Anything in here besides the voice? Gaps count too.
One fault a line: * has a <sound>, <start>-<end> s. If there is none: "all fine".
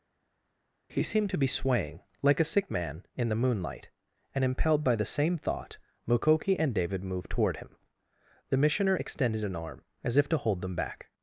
all fine